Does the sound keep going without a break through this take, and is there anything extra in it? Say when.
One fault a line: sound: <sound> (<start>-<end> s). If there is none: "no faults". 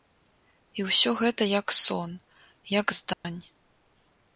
sound: dropout (3.1-3.2 s)